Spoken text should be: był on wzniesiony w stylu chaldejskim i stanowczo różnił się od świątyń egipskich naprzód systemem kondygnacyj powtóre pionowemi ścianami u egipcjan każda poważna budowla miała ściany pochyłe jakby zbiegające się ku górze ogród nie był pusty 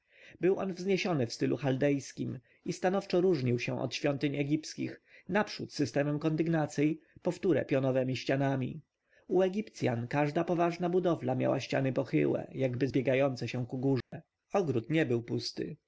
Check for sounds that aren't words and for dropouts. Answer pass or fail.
fail